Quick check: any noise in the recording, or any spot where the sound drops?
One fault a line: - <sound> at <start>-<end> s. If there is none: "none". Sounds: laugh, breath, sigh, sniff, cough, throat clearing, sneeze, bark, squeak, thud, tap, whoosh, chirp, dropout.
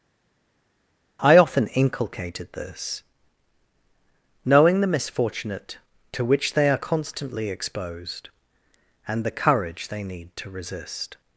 none